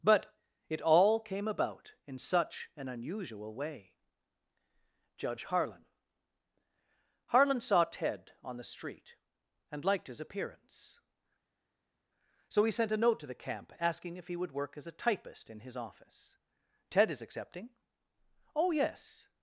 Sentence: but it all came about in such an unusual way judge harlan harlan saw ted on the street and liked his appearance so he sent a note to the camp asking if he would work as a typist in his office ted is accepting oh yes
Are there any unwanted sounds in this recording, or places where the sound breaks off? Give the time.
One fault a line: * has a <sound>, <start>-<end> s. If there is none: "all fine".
all fine